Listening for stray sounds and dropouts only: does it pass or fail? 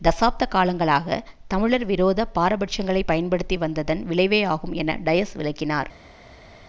pass